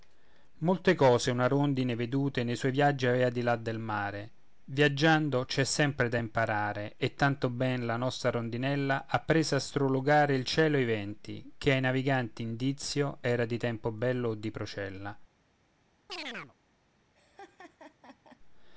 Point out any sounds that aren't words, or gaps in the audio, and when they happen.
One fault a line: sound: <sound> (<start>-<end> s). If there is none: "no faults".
sound: chirp (16.1-16.6 s)
sound: laugh (17.1-18.4 s)